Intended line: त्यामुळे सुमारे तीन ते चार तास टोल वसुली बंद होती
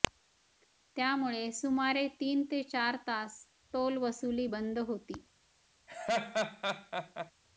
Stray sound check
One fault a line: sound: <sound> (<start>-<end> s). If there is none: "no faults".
sound: laugh (5.9-7.3 s)